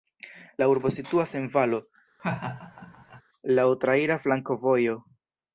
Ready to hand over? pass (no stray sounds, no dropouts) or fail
fail